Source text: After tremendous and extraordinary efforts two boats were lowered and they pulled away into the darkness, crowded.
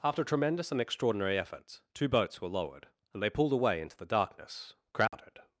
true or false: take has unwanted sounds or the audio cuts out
true